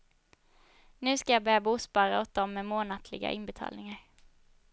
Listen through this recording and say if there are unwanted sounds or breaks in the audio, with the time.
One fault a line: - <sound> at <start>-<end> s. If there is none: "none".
none